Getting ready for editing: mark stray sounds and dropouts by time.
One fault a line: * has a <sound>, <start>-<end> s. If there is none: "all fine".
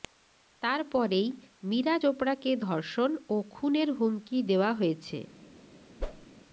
* has a whoosh, 6.0-6.3 s